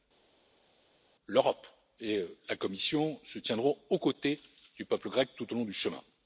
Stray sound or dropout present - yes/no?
no